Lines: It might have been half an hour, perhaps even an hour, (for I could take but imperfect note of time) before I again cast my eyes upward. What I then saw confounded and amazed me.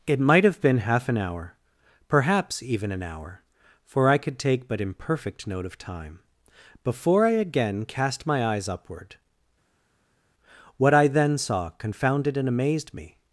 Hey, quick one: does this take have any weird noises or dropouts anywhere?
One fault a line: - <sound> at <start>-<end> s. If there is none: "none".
none